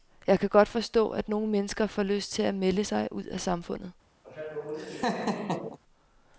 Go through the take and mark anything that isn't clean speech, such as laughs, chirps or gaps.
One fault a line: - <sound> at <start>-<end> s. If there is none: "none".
- laugh at 4.2-5.8 s